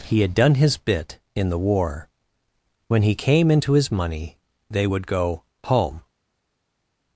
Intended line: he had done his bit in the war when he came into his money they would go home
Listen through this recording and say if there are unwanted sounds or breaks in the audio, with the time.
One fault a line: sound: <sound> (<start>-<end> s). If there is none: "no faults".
no faults